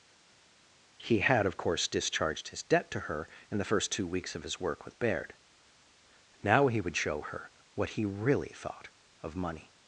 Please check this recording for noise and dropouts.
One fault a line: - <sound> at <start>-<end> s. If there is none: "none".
none